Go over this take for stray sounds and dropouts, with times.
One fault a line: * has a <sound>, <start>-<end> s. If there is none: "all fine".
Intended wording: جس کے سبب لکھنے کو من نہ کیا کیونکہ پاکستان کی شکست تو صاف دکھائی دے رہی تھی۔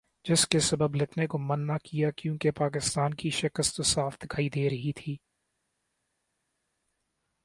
all fine